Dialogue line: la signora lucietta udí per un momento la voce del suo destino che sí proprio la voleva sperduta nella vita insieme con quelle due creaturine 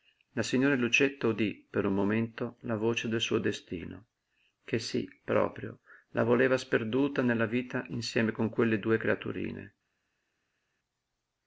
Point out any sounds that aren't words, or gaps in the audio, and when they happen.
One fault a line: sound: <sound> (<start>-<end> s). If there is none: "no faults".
no faults